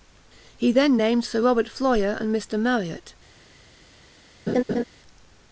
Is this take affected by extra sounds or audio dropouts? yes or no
yes